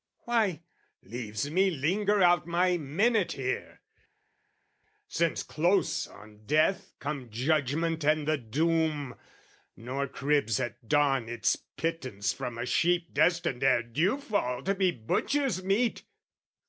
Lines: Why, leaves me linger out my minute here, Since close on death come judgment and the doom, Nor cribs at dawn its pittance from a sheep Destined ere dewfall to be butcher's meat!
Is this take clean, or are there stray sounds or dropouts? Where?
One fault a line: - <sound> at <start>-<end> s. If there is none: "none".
none